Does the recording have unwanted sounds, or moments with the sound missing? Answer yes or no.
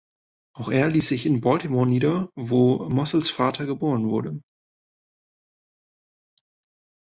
no